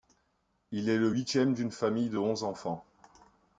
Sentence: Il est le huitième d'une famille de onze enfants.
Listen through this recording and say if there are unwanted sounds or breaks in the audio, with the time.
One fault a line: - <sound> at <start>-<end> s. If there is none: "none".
none